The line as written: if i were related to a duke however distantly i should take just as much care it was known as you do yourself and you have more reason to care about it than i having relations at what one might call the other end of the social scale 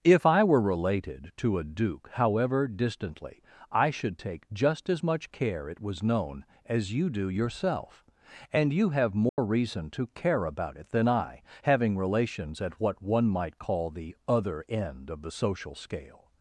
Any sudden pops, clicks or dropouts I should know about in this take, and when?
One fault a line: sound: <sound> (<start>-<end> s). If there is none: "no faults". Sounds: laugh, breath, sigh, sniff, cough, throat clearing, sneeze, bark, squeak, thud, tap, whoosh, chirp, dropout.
sound: dropout (9.3-9.4 s)